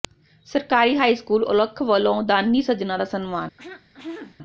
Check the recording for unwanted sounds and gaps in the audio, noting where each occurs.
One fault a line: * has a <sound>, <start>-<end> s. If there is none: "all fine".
* has a throat clearing, 3.6-4.4 s